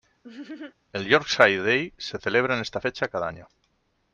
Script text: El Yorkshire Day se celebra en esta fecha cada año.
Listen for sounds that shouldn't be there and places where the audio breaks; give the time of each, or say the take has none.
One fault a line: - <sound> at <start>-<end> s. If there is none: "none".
- laugh at 0.2-0.7 s